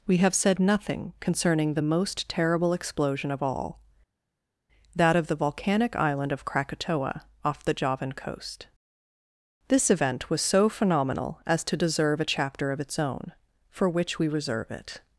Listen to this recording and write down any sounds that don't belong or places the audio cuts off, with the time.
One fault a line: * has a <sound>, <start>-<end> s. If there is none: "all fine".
all fine